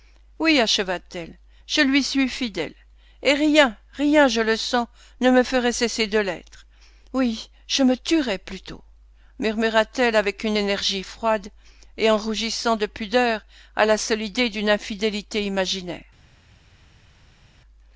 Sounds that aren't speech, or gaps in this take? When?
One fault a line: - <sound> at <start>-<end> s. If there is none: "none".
none